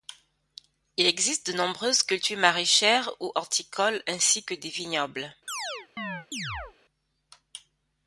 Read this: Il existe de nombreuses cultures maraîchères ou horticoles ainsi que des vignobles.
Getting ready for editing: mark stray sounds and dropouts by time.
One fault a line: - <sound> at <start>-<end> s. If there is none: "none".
- chirp at 5.5-6.7 s